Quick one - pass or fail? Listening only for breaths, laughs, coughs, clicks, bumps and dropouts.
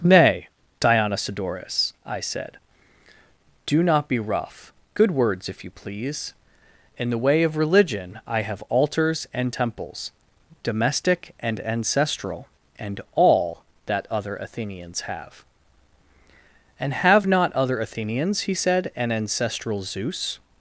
pass